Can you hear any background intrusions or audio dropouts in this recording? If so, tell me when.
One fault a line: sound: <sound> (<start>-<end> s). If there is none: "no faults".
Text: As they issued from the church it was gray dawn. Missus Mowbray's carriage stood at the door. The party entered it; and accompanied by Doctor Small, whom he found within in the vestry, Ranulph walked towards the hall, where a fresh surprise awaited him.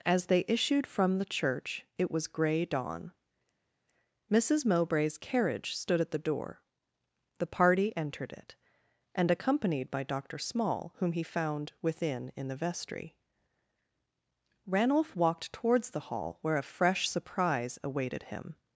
no faults